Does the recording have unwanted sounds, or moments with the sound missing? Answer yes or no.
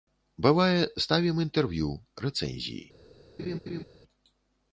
yes